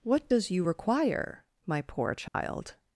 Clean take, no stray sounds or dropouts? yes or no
no